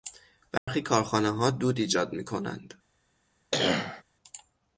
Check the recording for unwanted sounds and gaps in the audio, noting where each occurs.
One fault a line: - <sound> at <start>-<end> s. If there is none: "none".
- dropout at 0.6-0.7 s
- cough at 3.5-4.0 s